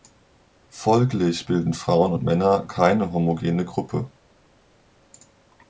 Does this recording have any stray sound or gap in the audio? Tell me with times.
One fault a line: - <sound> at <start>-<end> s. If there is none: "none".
none